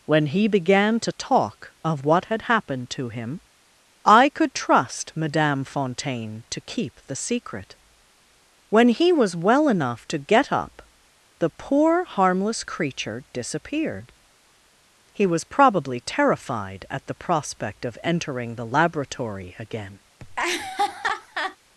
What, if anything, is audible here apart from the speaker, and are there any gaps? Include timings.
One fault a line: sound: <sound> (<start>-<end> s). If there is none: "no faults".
sound: laugh (20.2-21.6 s)